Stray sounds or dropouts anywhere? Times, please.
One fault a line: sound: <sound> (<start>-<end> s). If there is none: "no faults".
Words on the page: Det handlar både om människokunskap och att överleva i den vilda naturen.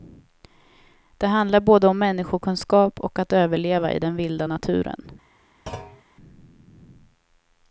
sound: thud (5.7-6.0 s)